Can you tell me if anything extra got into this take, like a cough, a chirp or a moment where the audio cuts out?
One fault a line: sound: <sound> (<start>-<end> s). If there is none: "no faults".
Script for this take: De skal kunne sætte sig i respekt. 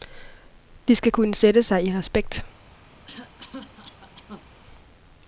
sound: cough (3.1-4.5 s)